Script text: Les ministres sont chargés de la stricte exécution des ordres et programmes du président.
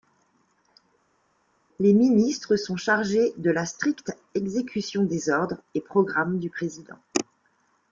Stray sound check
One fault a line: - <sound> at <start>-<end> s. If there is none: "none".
none